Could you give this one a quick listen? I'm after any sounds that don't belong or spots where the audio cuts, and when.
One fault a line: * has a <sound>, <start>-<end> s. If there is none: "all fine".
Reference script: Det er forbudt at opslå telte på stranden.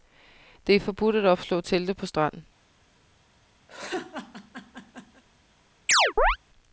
* has a laugh, 3.7-5.2 s
* has a chirp, 5.9-6.4 s